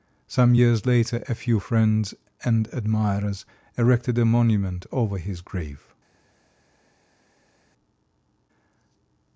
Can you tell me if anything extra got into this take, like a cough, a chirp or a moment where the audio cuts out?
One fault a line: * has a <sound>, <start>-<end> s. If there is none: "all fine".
all fine